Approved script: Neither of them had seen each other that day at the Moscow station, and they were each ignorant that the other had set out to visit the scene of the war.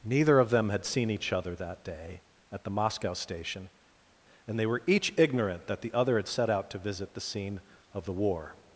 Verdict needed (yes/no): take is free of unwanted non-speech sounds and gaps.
yes